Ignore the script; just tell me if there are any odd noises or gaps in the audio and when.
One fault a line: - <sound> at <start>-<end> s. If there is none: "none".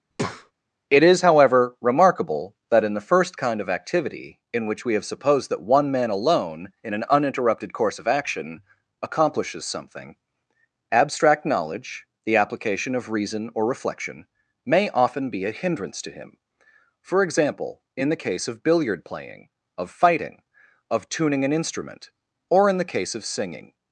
- breath at 0.1-0.5 s